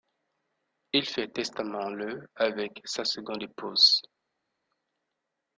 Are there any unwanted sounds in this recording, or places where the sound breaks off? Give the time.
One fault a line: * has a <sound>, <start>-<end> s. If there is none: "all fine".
all fine